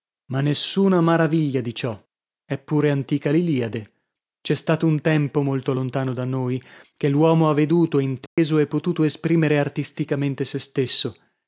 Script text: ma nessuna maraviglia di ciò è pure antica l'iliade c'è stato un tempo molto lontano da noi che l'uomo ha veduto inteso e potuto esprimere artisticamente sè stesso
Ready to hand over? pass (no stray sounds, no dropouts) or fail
fail